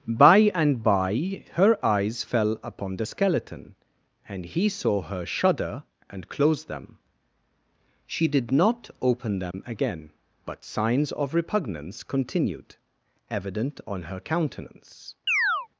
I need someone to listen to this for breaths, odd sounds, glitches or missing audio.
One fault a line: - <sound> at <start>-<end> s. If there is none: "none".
- dropout at 9.5-9.5 s
- chirp at 15.3-15.7 s